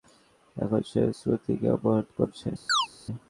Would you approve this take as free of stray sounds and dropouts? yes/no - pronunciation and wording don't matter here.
no